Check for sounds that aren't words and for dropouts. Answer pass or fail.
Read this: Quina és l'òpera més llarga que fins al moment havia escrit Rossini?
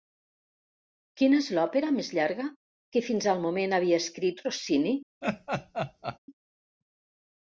fail